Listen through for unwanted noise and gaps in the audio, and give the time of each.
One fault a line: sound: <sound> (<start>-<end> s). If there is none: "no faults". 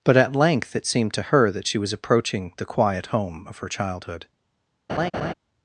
sound: laugh (4.9-5.3 s)